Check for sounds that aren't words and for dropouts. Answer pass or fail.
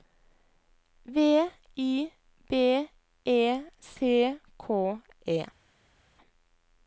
pass